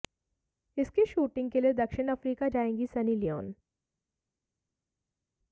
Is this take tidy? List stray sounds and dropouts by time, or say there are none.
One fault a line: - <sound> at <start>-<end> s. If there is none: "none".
none